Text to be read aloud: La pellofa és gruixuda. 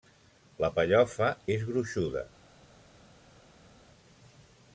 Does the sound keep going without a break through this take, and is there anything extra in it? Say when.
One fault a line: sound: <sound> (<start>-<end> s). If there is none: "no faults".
no faults